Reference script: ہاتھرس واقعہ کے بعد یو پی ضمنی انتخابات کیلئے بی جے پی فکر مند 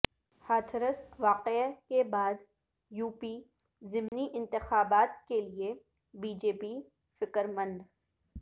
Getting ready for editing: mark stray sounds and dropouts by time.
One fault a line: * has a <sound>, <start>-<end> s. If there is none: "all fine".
* has a dropout, 4.1-4.1 s